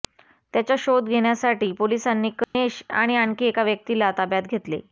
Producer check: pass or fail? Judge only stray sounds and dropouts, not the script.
fail